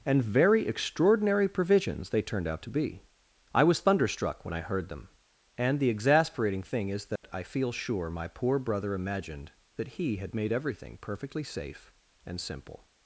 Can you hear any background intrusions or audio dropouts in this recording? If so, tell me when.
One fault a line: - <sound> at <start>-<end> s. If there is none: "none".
- dropout at 7.2-7.2 s